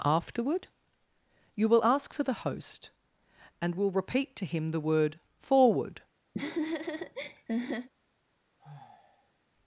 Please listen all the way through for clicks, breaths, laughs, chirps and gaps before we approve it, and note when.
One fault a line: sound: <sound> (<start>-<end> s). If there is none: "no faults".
sound: laugh (6.3-7.9 s)
sound: sigh (8.6-9.4 s)